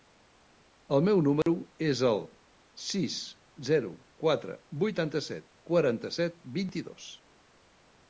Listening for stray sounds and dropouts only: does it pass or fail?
fail